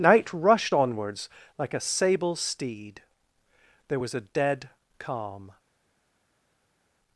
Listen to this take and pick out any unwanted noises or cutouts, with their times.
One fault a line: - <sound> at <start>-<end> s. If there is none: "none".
none